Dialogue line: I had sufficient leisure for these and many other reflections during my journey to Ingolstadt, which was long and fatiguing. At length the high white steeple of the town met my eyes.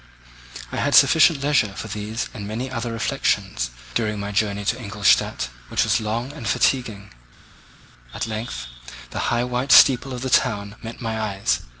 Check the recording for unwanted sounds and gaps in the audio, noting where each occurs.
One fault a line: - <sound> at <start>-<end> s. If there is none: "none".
none